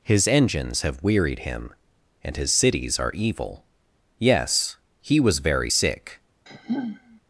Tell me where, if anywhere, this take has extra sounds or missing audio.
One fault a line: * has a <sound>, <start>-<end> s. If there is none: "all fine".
* has a sigh, 6.5-7.2 s